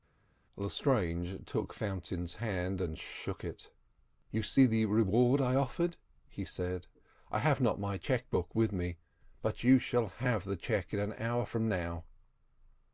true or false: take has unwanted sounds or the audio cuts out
false